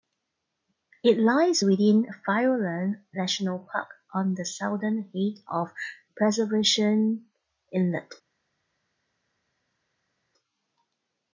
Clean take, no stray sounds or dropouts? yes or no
yes